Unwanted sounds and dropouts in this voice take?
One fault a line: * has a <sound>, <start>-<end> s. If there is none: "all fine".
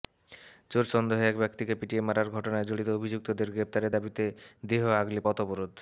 all fine